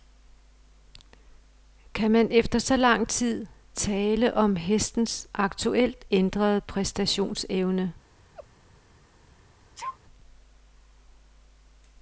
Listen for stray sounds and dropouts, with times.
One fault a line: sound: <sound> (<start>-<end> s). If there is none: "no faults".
sound: laugh (8.3-8.5 s)
sound: sneeze (9.7-10.0 s)